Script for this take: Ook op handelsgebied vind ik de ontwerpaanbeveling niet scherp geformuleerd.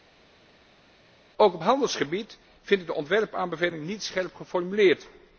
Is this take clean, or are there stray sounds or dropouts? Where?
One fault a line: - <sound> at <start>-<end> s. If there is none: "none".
none